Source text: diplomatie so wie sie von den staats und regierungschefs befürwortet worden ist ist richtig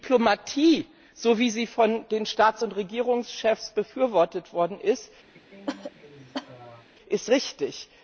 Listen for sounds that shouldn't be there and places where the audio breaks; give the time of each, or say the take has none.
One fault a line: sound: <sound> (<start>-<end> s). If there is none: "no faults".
sound: cough (5.3-6.9 s)